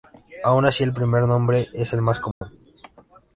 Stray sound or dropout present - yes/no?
yes